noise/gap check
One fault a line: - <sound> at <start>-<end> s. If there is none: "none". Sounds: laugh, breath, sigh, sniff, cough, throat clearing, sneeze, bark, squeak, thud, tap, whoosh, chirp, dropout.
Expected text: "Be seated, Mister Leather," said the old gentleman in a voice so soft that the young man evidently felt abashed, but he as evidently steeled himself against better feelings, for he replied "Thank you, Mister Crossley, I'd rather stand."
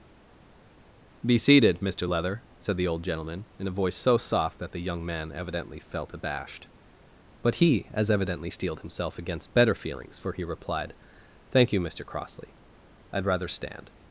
none